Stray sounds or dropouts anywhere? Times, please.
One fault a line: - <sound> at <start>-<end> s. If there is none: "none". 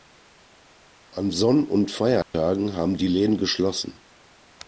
- dropout at 2.2-2.3 s